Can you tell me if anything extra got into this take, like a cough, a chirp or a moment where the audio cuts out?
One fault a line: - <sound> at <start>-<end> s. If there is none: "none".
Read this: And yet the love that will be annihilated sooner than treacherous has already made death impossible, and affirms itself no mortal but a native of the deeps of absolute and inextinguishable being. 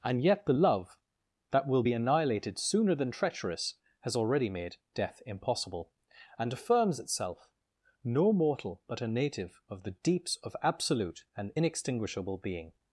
none